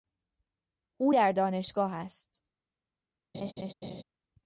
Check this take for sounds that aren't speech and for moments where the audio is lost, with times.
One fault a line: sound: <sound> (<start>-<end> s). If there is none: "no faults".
sound: laugh (3.3-4.0 s)